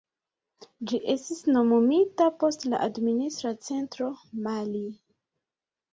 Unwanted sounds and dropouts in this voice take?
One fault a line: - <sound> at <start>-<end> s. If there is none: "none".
none